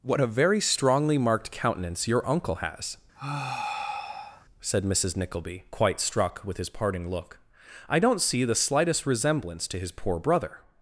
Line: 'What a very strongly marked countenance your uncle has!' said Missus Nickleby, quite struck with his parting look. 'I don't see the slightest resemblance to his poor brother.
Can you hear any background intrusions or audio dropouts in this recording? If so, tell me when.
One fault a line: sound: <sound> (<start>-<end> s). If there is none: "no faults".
sound: sigh (3.1-4.5 s)